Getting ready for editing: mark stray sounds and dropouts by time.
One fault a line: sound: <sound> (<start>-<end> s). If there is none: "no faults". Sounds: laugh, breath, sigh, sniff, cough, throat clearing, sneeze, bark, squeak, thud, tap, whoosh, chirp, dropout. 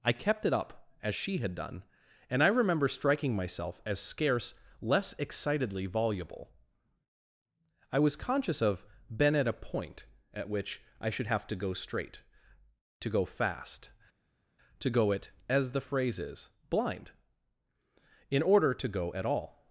no faults